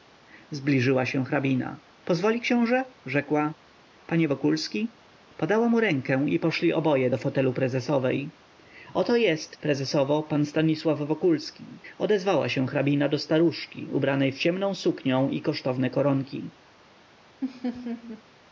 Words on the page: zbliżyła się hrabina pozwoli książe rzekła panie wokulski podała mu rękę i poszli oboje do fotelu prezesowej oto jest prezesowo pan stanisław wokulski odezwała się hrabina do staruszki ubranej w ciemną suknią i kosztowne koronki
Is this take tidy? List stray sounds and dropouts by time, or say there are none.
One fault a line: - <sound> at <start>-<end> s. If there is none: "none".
- laugh at 17.4-18.2 s